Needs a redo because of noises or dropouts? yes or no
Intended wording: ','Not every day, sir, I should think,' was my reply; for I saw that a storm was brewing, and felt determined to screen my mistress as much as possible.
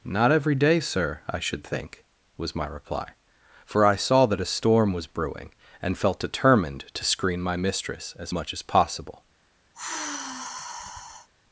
yes